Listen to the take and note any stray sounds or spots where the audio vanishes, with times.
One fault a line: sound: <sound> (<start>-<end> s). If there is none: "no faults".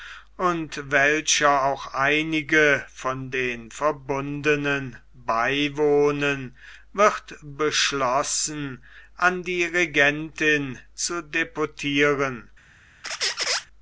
sound: squeak (13.0-13.7 s)